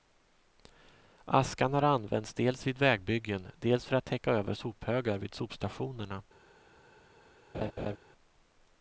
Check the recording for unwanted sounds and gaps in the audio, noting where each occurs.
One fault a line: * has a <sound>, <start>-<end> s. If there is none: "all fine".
* has a laugh, 7.5-8.0 s